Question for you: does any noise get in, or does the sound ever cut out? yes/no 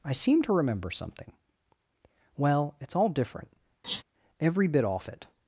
yes